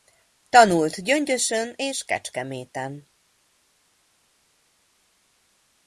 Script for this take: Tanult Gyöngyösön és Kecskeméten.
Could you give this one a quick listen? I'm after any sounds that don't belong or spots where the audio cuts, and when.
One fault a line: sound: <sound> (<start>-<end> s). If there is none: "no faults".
no faults